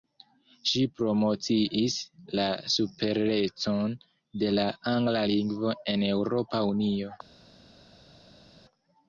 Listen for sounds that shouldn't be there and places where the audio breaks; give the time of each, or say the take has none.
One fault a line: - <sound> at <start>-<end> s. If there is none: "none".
none